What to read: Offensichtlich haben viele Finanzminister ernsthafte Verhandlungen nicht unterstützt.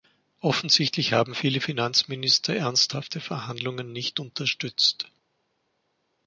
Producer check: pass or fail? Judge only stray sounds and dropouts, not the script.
pass